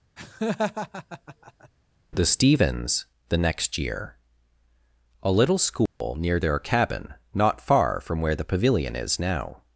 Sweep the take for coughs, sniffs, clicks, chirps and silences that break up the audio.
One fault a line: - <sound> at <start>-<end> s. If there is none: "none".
- laugh at 0.2-1.7 s
- dropout at 5.9-6.0 s